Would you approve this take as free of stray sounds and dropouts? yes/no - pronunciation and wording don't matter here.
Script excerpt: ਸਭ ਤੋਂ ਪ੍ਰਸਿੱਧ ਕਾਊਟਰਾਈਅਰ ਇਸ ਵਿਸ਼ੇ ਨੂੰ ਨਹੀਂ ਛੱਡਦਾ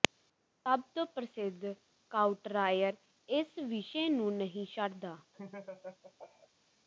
no